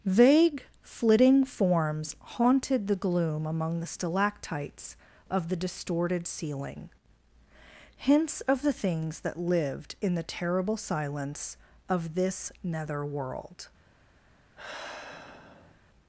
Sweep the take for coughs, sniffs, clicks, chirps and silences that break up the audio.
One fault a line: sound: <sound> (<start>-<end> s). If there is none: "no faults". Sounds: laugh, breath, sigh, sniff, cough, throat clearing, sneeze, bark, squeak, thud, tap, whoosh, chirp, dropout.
sound: sigh (14.5-15.8 s)